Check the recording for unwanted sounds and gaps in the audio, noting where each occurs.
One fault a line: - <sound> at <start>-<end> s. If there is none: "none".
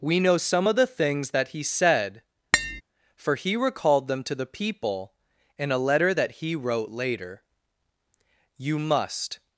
- tap at 2.5-2.8 s